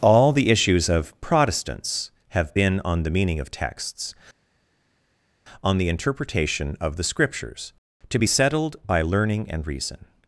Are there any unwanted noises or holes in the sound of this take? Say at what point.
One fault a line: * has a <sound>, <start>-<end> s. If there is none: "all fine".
all fine